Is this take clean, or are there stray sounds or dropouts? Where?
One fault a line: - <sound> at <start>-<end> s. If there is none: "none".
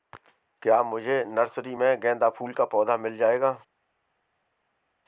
none